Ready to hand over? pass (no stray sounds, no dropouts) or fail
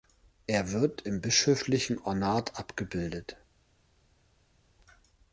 pass